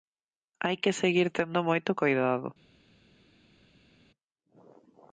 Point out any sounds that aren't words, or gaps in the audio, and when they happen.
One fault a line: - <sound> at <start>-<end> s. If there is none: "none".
none